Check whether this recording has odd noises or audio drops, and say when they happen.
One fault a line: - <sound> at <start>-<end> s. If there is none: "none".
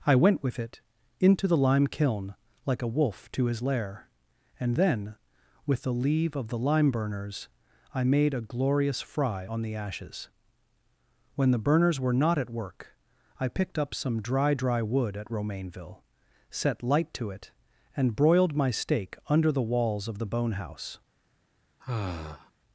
- sigh at 21.8-22.5 s